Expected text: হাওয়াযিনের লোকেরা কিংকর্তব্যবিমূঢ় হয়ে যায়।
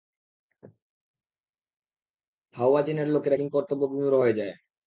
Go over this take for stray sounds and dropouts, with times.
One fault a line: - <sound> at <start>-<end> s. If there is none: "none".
none